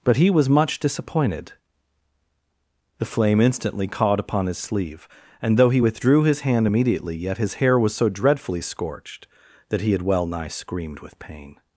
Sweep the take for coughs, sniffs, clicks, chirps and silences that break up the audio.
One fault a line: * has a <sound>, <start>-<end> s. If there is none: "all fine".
all fine